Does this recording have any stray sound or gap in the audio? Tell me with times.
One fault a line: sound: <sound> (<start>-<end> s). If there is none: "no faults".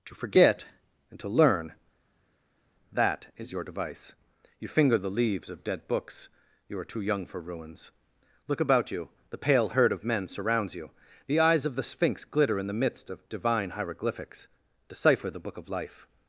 no faults